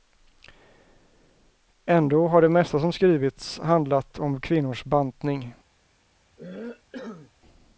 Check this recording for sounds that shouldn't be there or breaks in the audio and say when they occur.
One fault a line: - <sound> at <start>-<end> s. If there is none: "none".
- cough at 6.4-7.3 s